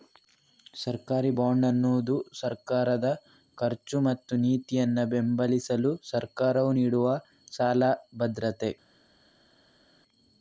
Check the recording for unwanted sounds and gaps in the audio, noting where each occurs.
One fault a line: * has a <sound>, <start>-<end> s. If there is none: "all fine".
all fine